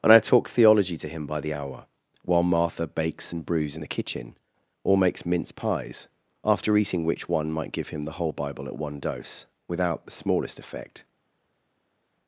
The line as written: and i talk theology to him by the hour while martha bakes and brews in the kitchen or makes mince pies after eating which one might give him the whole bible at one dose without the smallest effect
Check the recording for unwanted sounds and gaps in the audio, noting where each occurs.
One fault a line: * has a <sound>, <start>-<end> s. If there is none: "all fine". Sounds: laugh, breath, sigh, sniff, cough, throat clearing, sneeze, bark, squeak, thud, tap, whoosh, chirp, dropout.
all fine